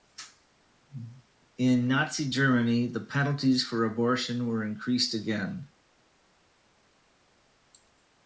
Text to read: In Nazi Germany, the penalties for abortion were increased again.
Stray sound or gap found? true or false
false